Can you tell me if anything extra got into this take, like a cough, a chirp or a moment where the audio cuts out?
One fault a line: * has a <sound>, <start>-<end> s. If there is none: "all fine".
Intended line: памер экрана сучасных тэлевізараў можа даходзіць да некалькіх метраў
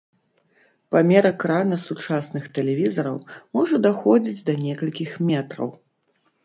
all fine